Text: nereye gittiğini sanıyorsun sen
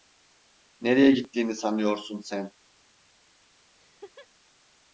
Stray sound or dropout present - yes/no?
yes